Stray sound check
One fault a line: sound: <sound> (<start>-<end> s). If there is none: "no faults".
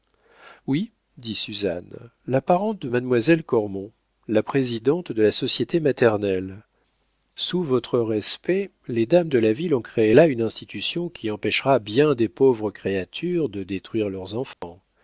sound: dropout (14.5-14.6 s)